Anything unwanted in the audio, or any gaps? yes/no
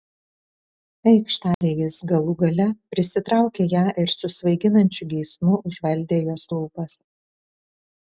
yes